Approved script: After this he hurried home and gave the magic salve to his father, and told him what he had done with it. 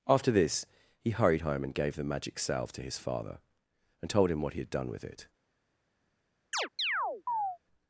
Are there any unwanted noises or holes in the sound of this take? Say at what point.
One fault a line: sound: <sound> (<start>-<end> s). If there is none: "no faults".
sound: chirp (6.5-7.6 s)